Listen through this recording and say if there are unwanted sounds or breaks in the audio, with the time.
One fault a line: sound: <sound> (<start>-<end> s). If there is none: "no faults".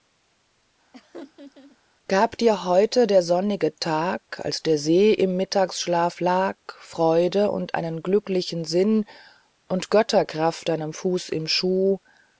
sound: laugh (0.9-1.8 s)